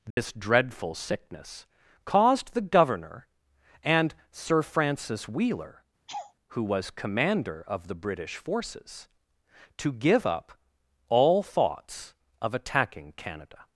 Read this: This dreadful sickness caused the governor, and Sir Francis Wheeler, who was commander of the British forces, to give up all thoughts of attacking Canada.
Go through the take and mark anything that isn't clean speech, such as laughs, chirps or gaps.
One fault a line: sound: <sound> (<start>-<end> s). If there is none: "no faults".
sound: dropout (0.1-0.2 s)
sound: laugh (6.1-6.3 s)